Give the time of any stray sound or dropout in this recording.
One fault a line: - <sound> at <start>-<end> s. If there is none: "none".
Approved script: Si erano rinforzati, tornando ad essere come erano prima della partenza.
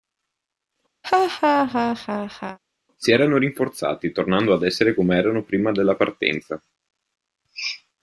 - laugh at 1.0-2.6 s